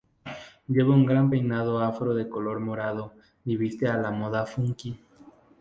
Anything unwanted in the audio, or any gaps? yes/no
no